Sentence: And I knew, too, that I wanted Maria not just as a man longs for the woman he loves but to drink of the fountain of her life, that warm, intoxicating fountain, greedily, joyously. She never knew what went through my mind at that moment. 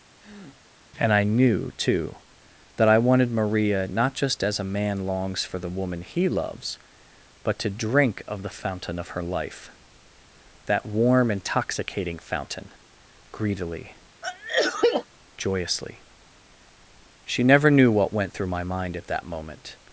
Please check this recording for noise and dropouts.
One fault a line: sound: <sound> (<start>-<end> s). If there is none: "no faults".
sound: breath (0.2-0.6 s)
sound: sneeze (14.2-15.1 s)